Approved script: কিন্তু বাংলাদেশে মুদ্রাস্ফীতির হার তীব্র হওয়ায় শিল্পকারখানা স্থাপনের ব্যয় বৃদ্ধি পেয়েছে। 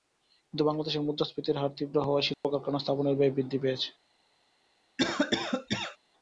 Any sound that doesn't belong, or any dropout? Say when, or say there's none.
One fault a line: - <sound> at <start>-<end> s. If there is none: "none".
- dropout at 2.3-2.4 s
- cough at 5.0-6.0 s